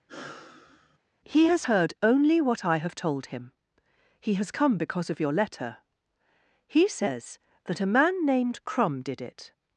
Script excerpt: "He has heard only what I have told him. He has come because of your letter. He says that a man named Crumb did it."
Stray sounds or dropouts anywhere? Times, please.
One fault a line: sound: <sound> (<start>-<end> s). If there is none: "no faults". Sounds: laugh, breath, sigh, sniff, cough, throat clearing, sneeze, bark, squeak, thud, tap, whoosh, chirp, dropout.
sound: sigh (0.1-1.0 s)